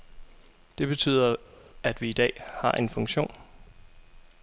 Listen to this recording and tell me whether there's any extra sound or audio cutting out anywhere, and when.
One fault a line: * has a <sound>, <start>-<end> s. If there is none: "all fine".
all fine